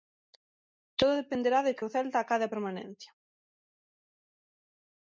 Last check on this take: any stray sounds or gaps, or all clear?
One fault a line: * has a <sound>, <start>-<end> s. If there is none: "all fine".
all fine